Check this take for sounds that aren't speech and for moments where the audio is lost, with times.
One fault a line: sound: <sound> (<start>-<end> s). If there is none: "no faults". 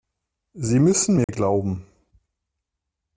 sound: dropout (1.2-1.3 s)